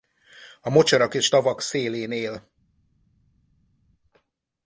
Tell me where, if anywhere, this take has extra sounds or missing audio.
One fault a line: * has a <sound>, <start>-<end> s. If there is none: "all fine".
all fine